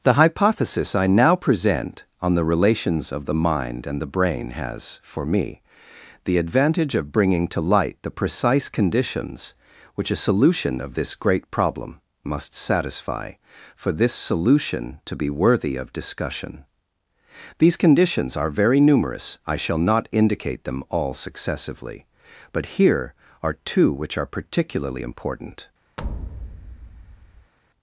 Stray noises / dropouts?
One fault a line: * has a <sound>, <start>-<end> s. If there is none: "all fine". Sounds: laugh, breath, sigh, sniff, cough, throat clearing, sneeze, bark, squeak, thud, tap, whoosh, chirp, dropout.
* has a thud, 26.0-27.5 s